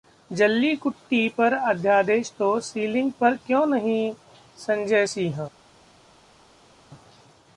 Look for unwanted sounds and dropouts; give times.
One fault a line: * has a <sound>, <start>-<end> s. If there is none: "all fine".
all fine